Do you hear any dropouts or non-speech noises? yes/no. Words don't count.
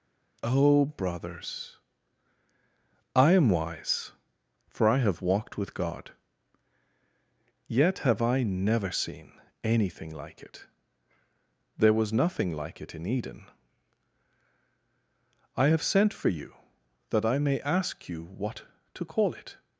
no